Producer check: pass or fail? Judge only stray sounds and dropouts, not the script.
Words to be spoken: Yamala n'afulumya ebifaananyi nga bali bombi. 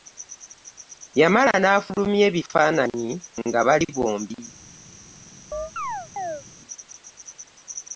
fail